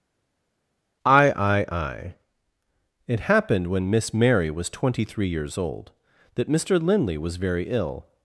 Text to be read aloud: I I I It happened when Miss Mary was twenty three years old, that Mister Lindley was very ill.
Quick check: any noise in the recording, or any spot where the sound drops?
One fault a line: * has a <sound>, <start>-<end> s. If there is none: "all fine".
all fine